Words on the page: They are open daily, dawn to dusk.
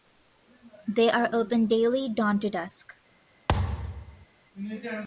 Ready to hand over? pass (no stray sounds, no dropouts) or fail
fail